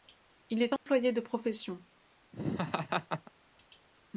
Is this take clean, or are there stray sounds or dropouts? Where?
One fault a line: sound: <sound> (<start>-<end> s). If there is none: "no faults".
sound: dropout (0.8-0.9 s)
sound: laugh (2.3-3.3 s)